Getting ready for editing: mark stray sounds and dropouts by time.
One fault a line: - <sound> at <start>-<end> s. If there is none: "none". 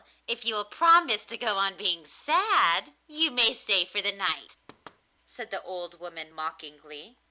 - thud at 4.7-5.0 s